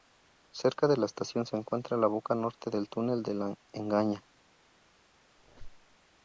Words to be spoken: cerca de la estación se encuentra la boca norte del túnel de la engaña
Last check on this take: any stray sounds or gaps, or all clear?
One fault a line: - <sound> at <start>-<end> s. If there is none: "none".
- squeak at 5.4-6.0 s